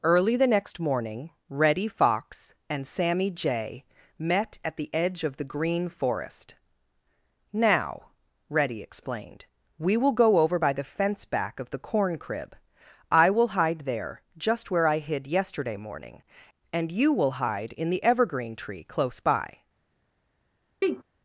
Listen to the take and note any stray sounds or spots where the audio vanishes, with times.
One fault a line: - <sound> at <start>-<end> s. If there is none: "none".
- sneeze at 20.8-21.0 s